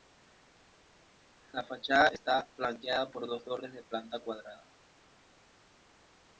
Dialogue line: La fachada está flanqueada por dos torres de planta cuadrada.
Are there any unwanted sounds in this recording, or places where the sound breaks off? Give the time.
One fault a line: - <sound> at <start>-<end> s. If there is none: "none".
none